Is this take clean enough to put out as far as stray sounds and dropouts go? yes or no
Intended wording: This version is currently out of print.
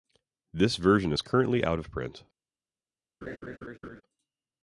no